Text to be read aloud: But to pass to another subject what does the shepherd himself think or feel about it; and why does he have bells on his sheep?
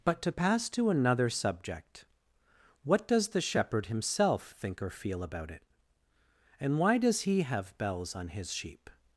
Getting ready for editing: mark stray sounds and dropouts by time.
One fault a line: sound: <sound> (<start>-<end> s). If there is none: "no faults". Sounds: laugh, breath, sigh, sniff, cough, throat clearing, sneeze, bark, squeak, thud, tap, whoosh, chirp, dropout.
no faults